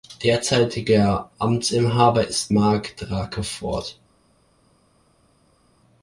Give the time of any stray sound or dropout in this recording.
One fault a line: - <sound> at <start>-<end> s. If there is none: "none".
none